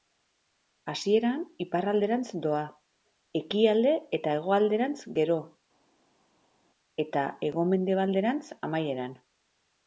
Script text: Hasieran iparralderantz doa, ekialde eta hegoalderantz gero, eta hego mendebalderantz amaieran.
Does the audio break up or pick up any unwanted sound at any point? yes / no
no